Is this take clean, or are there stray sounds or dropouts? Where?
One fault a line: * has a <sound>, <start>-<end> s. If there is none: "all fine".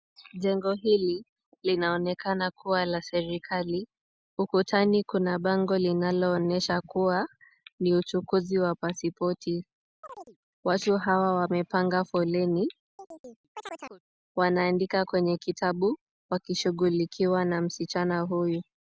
* has a chirp, 10.0-10.4 s
* has a chirp, 13.0-14.0 s